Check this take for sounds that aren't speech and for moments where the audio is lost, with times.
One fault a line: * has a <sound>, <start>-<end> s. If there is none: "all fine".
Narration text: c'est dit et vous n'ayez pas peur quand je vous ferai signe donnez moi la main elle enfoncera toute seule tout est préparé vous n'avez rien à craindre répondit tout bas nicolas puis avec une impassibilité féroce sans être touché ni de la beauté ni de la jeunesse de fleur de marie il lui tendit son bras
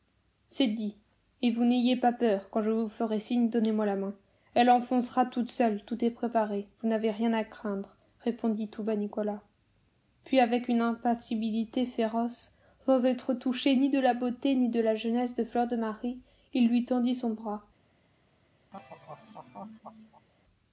* has a laugh, 18.7-20.3 s